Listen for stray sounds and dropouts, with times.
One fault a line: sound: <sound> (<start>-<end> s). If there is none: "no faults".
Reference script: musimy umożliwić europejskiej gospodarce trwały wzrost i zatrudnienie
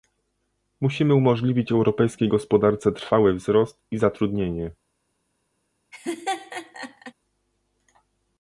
sound: laugh (5.9-7.1 s)